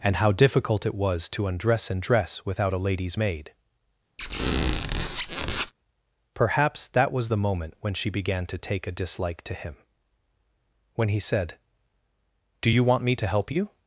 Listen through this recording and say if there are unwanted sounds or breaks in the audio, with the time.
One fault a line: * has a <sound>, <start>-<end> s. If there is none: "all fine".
* has a squeak, 4.2-5.7 s